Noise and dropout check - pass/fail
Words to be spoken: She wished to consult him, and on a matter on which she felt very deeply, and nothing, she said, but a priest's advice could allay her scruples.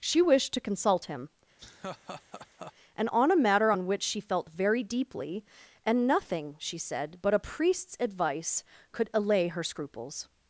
fail